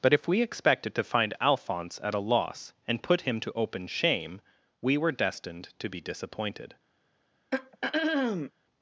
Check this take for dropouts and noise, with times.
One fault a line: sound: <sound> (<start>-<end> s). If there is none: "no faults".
sound: throat clearing (7.5-8.5 s)